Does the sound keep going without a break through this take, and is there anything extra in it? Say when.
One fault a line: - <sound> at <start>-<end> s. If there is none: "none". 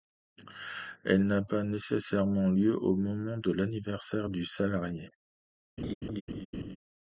- laugh at 5.8-6.8 s